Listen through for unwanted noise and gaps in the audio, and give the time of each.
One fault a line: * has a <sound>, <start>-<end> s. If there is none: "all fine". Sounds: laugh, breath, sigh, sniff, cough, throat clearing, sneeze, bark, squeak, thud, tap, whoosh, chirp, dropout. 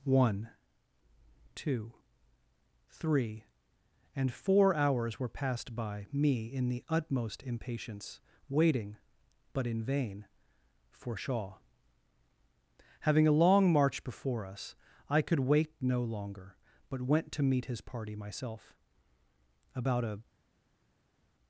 all fine